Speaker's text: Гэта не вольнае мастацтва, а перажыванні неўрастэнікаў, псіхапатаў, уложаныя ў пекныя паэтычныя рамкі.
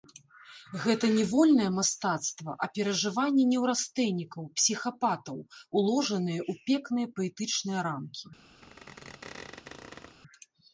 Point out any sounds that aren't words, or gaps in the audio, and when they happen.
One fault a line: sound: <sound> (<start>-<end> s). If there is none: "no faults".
sound: squeak (8.6-10.2 s)